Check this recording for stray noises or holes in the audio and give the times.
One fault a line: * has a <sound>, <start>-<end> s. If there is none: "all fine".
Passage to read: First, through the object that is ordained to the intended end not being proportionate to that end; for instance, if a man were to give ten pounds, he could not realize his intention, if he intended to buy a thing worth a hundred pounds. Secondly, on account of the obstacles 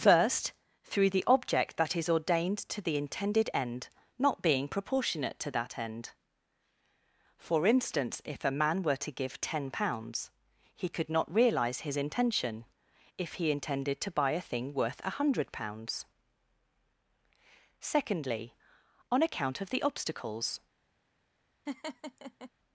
* has a laugh, 21.7-22.5 s